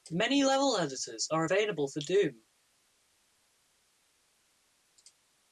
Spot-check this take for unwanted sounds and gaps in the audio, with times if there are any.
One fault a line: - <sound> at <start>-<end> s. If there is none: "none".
none